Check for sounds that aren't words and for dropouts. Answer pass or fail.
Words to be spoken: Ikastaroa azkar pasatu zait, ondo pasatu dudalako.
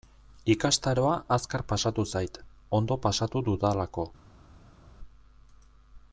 pass